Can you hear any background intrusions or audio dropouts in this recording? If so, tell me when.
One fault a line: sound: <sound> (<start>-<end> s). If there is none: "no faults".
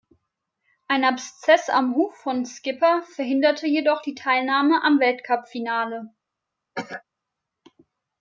sound: cough (6.7-7.0 s)